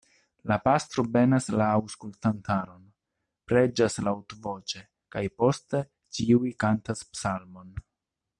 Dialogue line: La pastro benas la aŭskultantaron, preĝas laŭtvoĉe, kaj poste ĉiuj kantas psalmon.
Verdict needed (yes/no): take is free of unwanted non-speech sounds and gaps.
yes